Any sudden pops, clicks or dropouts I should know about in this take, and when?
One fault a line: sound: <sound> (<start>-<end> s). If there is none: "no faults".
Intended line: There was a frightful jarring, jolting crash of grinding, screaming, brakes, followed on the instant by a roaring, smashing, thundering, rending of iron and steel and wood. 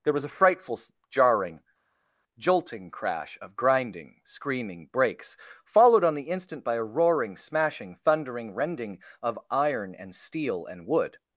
no faults